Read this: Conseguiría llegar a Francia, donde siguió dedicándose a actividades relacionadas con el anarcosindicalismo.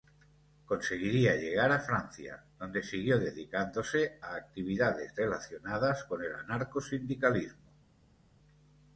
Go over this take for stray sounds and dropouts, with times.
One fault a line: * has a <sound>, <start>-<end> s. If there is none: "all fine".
all fine